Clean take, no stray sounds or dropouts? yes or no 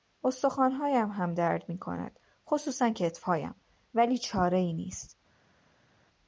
yes